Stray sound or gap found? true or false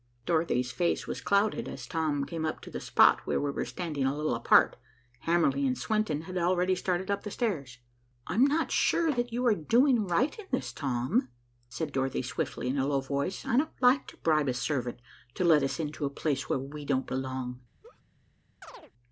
true